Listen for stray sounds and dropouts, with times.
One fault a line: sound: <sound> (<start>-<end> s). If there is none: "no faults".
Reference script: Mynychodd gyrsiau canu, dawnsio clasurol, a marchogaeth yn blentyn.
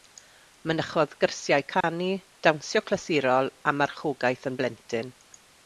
sound: dropout (1.8-1.8 s)